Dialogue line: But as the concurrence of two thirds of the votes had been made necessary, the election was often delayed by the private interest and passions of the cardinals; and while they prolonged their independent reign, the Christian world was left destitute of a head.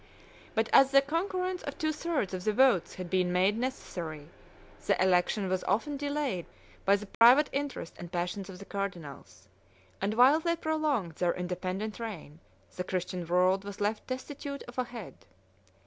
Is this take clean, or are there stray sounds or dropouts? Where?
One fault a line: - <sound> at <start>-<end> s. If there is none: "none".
- dropout at 7.1-7.2 s